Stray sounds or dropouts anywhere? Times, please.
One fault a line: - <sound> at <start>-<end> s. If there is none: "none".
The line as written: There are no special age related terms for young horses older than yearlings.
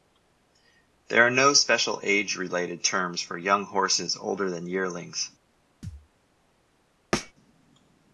- thud at 5.8-6.1 s
- thud at 7.1-7.3 s